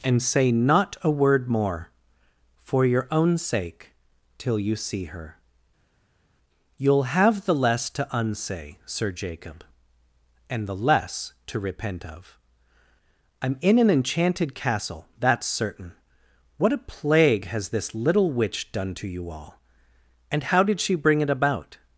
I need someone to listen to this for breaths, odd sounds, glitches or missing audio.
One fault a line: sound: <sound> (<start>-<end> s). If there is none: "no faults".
no faults